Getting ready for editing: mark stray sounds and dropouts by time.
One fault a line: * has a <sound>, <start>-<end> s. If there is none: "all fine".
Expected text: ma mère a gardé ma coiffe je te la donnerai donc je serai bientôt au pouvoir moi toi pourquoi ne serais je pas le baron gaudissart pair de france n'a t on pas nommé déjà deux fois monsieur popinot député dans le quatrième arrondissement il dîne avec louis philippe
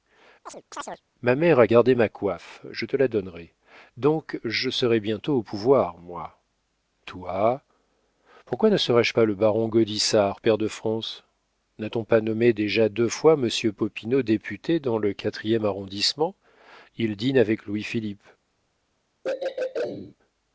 * has a chirp, 0.5-1.0 s
* has a throat clearing, 19.2-20.2 s